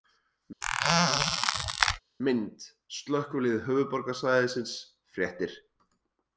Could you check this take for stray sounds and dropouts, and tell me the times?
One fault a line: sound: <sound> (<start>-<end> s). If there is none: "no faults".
sound: squeak (0.6-2.0 s)